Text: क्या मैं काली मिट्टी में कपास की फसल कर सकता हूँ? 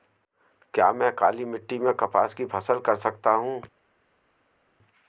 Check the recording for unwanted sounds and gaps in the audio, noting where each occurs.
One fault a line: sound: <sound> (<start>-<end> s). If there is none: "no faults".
no faults